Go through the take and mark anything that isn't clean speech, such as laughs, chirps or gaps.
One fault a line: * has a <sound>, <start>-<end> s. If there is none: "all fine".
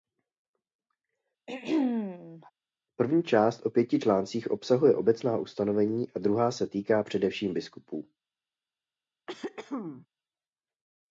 * has a throat clearing, 1.5-2.5 s
* has a throat clearing, 9.3-10.1 s